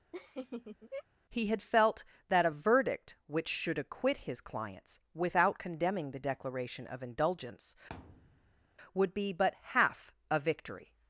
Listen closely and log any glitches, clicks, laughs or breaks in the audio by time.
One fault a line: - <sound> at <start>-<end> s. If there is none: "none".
- laugh at 0.1-1.0 s
- thud at 7.9-8.7 s